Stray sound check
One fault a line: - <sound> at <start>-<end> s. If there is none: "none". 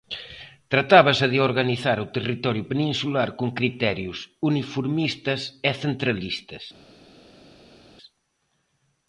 none